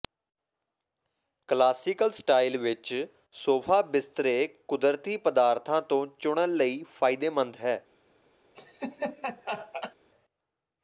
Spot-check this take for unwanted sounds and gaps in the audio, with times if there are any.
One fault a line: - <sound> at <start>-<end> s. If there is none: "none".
- laugh at 8.5-9.9 s